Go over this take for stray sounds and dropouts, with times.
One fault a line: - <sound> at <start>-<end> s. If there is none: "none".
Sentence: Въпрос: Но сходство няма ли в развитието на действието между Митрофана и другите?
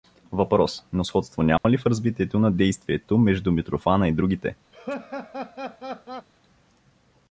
- dropout at 1.6-1.6 s
- laugh at 4.7-6.3 s